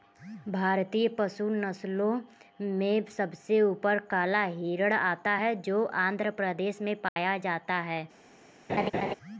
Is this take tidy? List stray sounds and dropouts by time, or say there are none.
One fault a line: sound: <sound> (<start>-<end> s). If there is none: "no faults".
sound: dropout (7.1-7.2 s)
sound: laugh (8.7-9.1 s)